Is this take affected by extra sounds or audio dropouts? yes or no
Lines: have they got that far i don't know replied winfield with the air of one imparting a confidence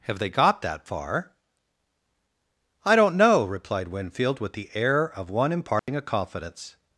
yes